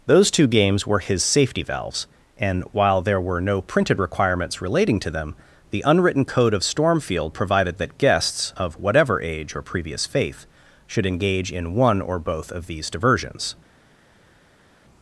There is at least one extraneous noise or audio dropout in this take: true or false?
false